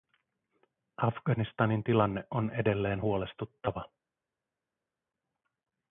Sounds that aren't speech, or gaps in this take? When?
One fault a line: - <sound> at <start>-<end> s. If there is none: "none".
none